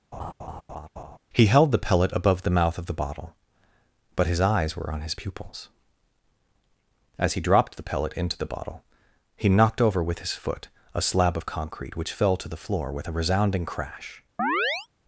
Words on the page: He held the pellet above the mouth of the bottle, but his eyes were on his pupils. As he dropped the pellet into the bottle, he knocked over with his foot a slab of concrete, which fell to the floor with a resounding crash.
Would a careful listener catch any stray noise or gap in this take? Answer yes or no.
yes